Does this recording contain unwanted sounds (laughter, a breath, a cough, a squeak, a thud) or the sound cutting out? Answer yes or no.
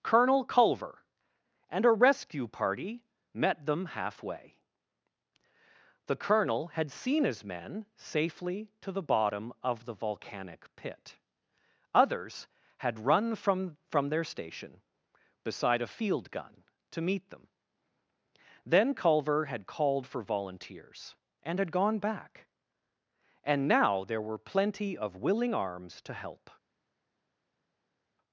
no